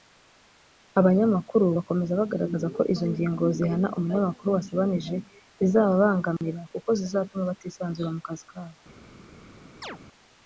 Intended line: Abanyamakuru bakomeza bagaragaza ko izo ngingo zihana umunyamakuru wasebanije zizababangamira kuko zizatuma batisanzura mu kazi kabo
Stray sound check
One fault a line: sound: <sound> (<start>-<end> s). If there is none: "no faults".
sound: dropout (6.4-6.4 s)
sound: chirp (9.8-10.0 s)